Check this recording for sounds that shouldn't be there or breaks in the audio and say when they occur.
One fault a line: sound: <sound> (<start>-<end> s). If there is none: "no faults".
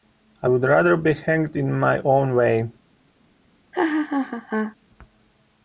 sound: laugh (3.7-4.8 s)